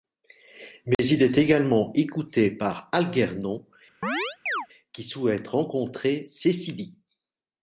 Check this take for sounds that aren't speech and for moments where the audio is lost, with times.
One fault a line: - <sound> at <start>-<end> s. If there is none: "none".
- dropout at 0.9-1.0 s
- chirp at 4.0-4.7 s